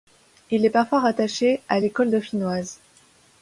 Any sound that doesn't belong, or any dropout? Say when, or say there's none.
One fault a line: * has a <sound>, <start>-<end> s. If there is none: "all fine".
all fine